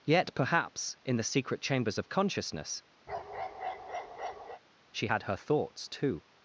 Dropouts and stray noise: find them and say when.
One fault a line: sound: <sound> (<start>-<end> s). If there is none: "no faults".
sound: bark (3.1-4.6 s)